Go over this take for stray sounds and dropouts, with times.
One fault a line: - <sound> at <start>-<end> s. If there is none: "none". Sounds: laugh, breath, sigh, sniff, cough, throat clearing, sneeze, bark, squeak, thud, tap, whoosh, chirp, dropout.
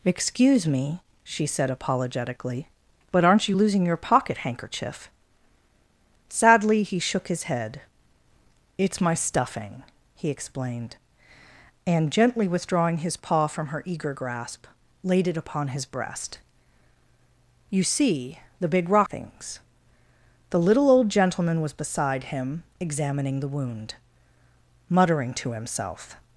none